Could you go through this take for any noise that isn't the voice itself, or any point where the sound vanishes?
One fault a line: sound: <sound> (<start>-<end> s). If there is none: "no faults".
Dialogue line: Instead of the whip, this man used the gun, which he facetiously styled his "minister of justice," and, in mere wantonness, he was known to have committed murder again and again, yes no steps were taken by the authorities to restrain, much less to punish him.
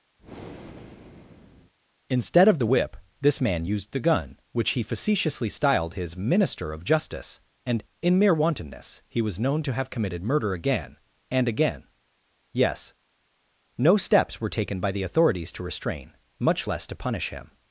sound: breath (0.2-1.7 s)